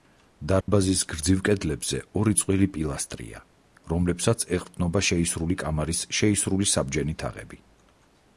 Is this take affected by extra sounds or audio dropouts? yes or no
yes